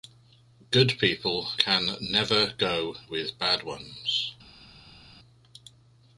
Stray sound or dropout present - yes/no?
no